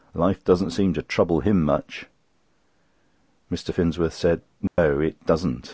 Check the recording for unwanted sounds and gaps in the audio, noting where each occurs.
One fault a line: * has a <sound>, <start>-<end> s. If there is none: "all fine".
* has a dropout, 4.7-4.8 s